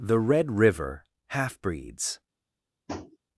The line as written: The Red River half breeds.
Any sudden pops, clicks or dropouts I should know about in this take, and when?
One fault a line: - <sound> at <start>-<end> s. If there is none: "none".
- tap at 2.9-3.2 s